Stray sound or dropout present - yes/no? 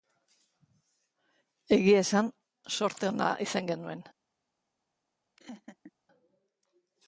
yes